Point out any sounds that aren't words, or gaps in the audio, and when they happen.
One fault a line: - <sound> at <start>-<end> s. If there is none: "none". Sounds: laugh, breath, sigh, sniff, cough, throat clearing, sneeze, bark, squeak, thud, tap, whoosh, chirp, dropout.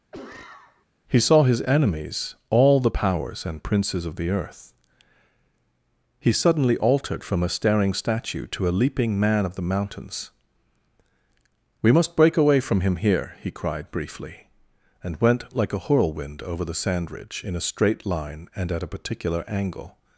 - cough at 0.1-0.9 s